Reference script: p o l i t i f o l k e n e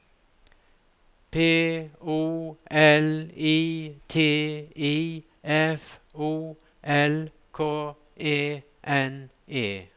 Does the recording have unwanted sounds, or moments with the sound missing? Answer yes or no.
no